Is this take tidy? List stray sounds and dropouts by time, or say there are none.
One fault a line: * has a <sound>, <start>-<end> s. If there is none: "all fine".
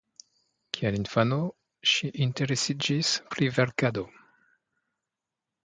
all fine